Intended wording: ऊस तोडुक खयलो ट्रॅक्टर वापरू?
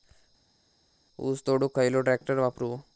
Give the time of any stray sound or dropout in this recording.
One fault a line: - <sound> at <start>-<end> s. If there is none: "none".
none